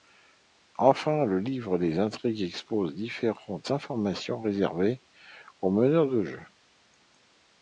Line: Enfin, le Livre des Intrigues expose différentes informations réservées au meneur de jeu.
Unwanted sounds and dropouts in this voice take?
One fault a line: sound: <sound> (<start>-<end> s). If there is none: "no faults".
no faults